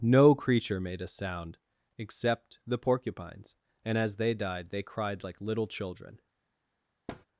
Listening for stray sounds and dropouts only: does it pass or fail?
fail